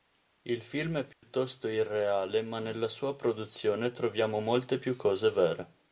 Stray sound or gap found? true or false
true